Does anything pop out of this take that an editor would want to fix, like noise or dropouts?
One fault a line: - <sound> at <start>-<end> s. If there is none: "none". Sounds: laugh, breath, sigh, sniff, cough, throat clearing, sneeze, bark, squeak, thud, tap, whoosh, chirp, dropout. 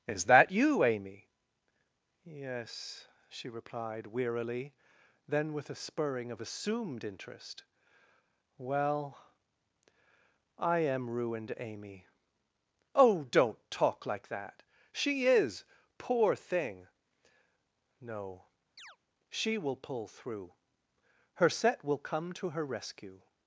- chirp at 18.8-19.0 s